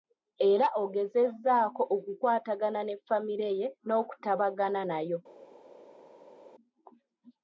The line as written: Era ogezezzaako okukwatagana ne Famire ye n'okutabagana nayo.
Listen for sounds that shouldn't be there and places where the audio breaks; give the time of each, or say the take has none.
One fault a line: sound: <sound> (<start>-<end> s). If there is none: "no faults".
no faults